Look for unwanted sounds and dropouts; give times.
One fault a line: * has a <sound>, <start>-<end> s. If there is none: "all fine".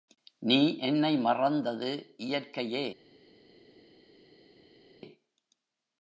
all fine